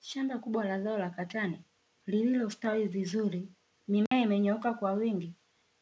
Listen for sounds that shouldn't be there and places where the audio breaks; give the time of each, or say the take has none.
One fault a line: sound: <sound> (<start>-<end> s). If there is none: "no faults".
sound: dropout (4.1-4.1 s)